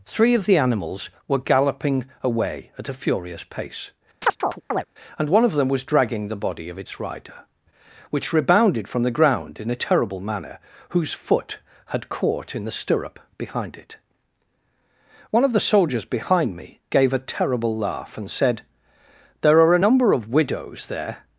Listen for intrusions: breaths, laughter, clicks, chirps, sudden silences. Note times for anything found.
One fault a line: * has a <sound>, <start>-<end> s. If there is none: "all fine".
* has a chirp, 4.2-4.8 s